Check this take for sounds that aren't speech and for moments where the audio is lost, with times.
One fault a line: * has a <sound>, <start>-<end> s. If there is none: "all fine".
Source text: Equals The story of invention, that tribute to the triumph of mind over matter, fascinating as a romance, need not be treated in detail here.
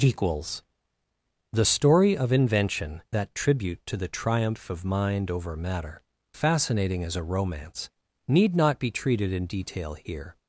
all fine